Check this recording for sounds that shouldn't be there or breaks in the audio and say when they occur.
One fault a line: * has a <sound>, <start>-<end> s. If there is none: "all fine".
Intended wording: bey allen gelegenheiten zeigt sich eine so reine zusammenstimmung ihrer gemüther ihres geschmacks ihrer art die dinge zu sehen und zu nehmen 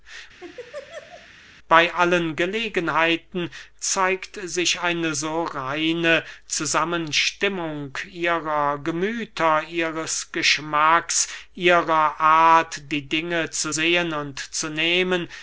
* has a laugh, 0.4-1.3 s